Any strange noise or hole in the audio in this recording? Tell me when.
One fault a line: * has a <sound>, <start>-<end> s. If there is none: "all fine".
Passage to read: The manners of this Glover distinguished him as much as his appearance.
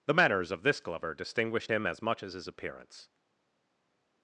all fine